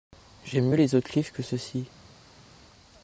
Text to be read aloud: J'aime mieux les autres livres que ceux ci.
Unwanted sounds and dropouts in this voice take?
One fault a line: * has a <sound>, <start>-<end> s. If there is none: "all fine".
all fine